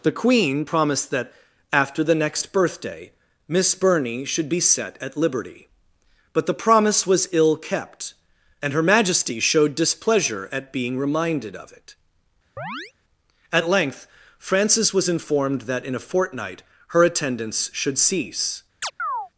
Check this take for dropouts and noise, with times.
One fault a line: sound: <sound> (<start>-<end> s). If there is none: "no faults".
sound: chirp (12.6-12.9 s)
sound: chirp (18.8-19.3 s)